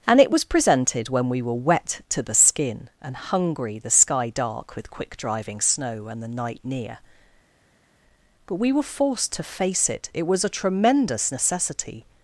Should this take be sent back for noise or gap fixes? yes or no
no